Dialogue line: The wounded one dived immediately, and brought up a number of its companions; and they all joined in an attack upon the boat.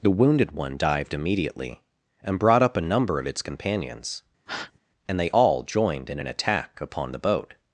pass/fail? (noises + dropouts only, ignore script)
fail